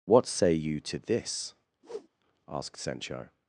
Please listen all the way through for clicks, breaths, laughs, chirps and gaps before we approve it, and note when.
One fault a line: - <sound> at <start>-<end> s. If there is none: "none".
- whoosh at 1.8-2.1 s